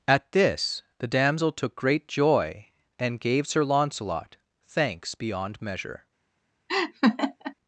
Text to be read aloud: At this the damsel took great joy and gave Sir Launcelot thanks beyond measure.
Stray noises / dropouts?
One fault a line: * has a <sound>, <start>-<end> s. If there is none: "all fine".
* has a laugh, 6.7-7.5 s